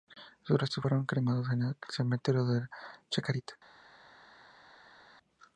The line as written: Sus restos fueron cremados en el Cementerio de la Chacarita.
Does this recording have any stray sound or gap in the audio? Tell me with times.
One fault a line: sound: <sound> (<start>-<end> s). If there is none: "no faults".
no faults